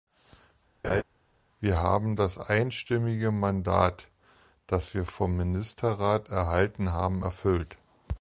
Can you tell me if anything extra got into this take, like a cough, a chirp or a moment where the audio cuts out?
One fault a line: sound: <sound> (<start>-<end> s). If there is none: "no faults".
sound: laugh (0.8-1.0 s)